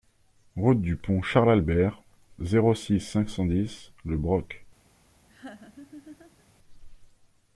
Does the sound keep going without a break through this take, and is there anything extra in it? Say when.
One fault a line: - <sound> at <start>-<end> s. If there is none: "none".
- laugh at 5.3-6.5 s